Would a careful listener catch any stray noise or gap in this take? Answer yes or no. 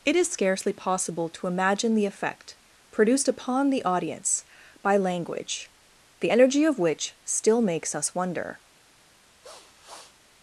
yes